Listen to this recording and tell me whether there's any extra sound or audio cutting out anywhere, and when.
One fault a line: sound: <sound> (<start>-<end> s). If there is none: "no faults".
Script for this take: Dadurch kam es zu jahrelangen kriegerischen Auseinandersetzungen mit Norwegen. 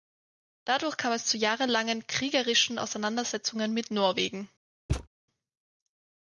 sound: thud (4.9-5.1 s)